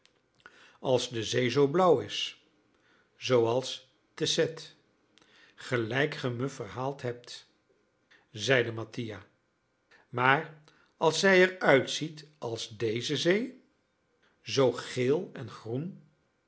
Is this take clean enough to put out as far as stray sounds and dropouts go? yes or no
yes